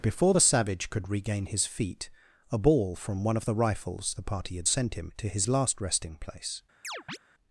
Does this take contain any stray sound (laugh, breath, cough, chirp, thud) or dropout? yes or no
yes